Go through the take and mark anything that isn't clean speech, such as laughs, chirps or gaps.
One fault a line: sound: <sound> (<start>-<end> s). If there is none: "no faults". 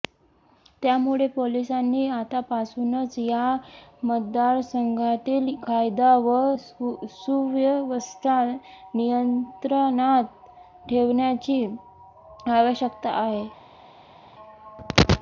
no faults